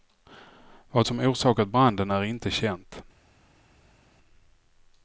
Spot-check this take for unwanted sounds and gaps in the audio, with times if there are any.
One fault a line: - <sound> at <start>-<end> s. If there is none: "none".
none